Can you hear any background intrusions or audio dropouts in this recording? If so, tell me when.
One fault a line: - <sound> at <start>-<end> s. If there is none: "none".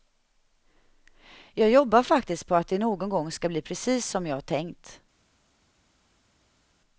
none